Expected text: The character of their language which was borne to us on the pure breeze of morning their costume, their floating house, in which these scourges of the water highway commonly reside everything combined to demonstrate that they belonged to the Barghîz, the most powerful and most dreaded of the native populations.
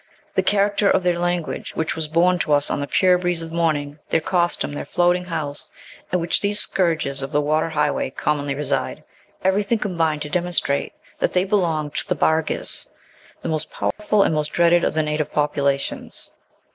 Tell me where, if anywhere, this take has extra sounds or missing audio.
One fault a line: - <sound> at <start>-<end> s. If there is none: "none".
- dropout at 13.9-14.0 s